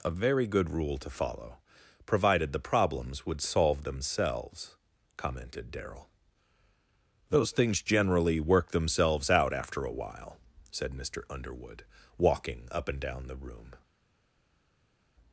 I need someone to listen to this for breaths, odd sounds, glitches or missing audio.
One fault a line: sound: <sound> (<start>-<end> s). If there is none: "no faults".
no faults